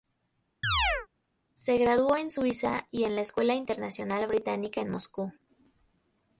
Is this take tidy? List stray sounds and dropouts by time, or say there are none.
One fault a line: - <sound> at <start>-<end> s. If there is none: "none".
- chirp at 0.6-1.1 s